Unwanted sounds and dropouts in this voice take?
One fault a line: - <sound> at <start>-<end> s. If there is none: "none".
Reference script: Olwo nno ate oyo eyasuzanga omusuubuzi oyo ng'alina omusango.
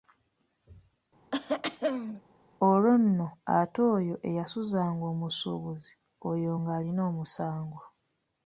- throat clearing at 1.3-2.2 s